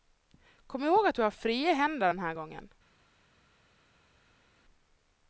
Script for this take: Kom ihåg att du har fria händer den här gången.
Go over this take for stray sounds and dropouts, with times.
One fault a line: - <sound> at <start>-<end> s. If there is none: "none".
none